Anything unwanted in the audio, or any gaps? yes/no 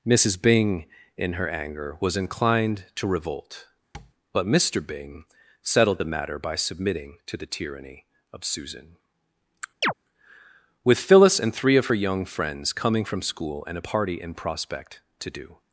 yes